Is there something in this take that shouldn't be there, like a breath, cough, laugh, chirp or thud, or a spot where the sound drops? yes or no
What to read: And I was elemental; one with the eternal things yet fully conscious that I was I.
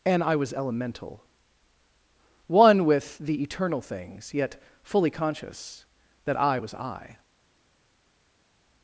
no